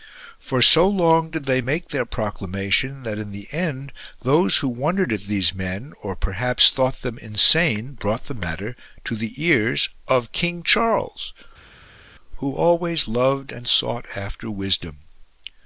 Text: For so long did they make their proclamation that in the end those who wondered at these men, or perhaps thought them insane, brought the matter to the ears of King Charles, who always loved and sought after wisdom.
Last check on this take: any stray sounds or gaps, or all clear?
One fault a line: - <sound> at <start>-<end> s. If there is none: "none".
none